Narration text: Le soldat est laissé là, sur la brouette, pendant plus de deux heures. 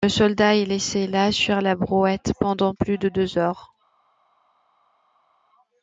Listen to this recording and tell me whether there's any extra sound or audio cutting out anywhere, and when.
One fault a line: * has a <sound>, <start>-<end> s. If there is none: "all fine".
all fine